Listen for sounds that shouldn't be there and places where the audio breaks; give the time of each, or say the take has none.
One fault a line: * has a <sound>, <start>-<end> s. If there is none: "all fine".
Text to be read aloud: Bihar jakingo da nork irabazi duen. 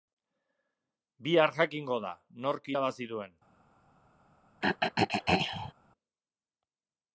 * has a throat clearing, 4.6-5.7 s